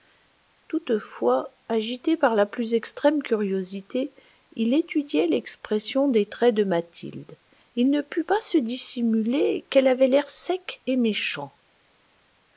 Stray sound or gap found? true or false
false